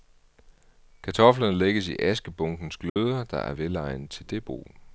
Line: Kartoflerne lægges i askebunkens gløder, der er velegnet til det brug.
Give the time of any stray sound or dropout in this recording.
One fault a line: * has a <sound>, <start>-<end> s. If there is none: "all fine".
* has a dropout, 2.9-3.0 s